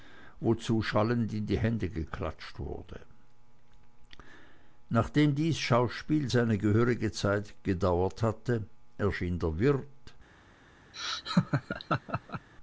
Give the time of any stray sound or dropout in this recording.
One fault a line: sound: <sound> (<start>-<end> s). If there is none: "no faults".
sound: laugh (10.9-12.5 s)